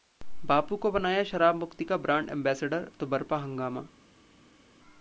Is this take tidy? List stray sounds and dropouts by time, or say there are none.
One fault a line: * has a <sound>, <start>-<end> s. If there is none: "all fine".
all fine